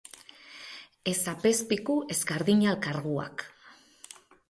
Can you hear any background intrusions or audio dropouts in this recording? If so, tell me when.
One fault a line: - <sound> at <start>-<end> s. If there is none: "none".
none